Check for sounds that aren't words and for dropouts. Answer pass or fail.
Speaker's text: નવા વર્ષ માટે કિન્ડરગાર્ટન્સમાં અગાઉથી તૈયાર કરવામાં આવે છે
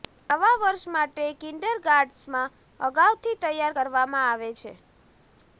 pass